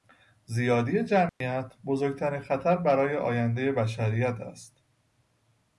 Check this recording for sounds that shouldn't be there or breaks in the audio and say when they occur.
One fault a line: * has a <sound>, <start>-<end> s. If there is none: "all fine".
* has a dropout, 1.3-1.4 s